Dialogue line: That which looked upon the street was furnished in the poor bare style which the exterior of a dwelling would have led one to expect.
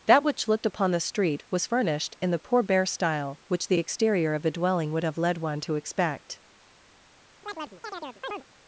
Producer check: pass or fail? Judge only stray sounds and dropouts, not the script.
fail